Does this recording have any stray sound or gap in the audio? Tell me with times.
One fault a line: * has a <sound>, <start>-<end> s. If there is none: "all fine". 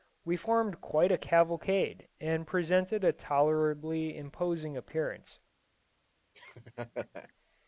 * has a laugh, 6.3-7.3 s